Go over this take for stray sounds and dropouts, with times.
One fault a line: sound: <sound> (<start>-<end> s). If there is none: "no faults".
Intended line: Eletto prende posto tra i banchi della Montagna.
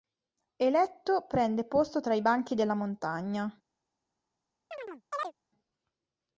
sound: chirp (4.7-5.3 s)